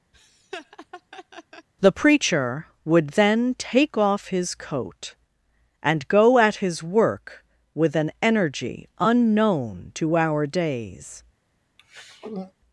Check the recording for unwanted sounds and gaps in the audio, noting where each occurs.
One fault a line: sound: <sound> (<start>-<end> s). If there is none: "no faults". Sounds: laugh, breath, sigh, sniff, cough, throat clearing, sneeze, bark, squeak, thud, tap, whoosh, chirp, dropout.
sound: laugh (0.1-1.7 s)
sound: throat clearing (11.8-12.5 s)